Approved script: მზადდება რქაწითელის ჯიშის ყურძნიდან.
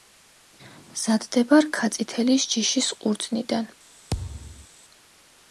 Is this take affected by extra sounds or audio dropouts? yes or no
yes